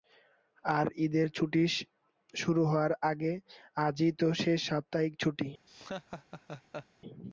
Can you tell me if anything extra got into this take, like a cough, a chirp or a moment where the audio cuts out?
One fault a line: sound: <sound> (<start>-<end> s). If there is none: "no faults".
sound: laugh (5.7-6.9 s)